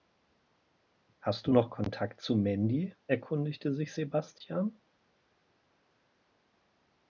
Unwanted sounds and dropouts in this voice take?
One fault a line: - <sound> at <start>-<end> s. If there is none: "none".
none